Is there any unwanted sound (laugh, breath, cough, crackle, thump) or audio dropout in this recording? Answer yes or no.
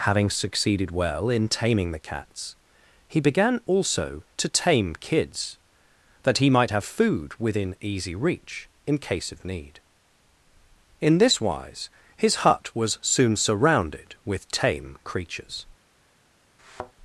yes